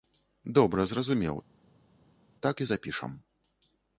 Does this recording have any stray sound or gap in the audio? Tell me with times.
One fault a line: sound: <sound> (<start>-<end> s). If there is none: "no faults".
no faults